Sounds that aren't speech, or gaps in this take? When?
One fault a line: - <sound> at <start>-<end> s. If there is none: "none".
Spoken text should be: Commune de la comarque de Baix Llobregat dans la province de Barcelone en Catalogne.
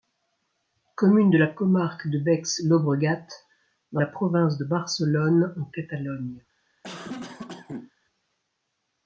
- cough at 6.8-7.9 s